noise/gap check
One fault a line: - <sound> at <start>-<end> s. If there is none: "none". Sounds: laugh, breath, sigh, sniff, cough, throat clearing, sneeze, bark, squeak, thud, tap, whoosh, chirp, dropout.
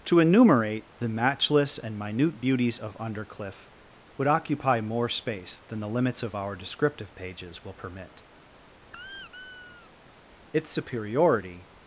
- squeak at 8.9-9.9 s